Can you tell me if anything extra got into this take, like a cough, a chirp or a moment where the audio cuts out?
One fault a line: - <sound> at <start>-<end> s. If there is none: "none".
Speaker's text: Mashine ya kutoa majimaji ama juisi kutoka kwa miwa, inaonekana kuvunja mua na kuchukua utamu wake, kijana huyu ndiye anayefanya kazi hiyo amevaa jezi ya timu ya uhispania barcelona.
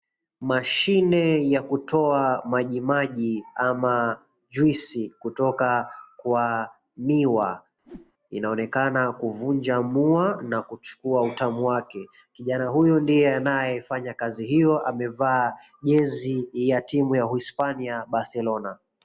- whoosh at 7.8-8.1 s